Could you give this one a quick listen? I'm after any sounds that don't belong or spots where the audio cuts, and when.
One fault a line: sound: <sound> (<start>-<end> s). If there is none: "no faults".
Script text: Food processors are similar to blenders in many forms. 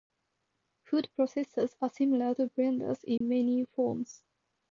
sound: dropout (3.2-3.2 s)